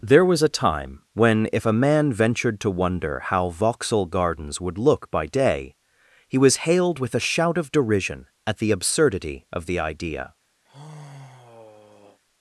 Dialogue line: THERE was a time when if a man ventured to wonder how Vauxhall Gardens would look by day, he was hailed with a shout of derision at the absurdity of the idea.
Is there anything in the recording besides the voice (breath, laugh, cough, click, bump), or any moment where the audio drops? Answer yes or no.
yes